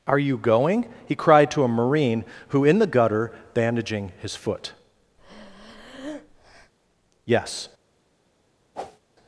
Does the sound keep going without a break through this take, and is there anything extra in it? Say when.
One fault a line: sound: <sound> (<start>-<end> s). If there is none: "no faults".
sound: breath (5.2-6.7 s)
sound: whoosh (8.7-9.0 s)